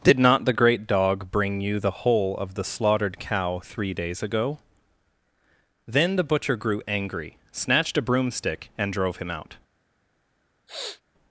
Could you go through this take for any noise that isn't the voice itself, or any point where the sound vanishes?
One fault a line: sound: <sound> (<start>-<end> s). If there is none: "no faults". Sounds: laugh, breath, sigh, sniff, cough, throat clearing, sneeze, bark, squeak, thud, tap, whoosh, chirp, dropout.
sound: sniff (10.7-11.0 s)